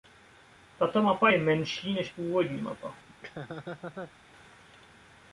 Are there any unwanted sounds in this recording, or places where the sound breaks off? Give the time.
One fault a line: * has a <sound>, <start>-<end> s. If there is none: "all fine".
* has a laugh, 3.1-4.1 s